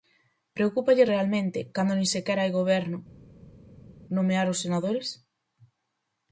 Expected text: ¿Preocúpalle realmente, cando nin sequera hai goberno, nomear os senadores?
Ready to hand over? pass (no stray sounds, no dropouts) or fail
pass